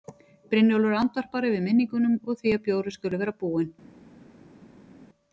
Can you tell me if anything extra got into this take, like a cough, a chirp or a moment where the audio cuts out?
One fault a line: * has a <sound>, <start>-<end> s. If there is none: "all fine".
all fine